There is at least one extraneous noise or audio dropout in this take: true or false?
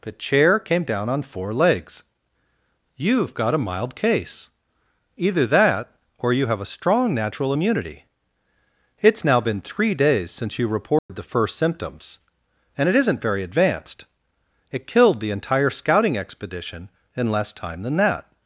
true